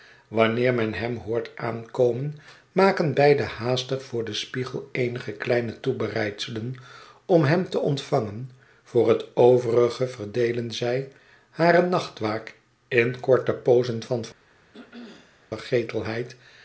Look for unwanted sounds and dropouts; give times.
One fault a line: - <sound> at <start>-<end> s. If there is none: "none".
- throat clearing at 14.7-15.5 s